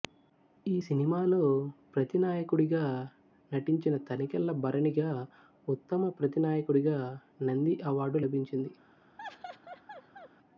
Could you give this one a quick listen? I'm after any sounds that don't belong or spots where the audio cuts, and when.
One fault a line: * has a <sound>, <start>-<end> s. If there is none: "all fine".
* has a laugh, 9.2-10.3 s